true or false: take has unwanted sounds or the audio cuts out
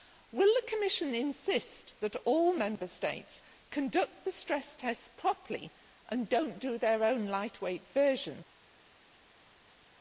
false